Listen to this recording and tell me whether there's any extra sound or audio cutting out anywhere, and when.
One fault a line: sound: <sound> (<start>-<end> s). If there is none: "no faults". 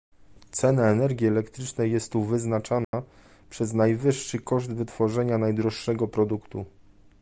sound: dropout (2.8-2.9 s)